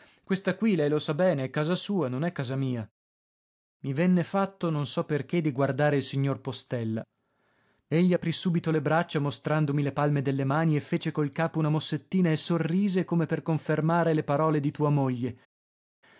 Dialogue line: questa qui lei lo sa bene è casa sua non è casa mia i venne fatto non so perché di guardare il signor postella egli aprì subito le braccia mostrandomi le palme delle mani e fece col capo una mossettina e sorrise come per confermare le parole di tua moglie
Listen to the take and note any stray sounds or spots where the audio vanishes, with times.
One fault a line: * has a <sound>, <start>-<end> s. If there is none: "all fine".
all fine